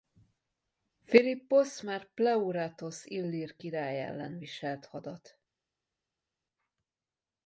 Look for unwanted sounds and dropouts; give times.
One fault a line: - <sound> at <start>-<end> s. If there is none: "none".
none